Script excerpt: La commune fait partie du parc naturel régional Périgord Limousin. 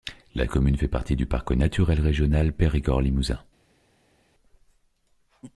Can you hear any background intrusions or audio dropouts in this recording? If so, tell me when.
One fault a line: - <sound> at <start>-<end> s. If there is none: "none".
none